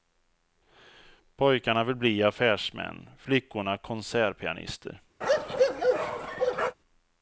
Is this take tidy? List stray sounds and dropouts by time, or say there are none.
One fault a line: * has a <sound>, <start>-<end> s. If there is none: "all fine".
* has a bark, 5.2-6.8 s